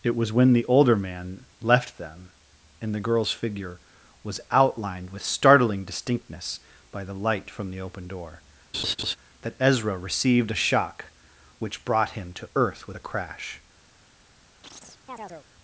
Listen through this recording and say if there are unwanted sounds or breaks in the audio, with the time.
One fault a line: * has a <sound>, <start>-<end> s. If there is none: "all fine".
* has a laugh, 8.7-9.2 s
* has a chirp, 14.6-15.5 s